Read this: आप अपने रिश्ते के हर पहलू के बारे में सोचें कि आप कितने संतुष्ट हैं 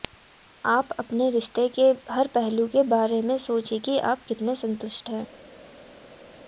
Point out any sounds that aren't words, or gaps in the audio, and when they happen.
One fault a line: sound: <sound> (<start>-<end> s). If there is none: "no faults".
no faults